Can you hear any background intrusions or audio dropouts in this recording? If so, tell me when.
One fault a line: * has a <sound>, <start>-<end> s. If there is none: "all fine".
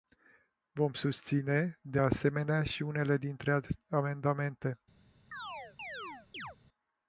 * has a chirp, 5.3-6.6 s